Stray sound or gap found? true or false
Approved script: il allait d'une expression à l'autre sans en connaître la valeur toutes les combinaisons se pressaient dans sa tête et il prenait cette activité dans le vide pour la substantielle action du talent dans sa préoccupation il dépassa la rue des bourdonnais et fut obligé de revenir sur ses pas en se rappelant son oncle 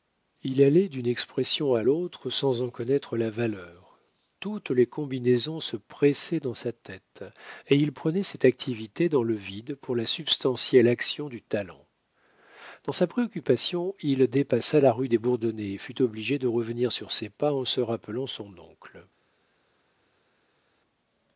false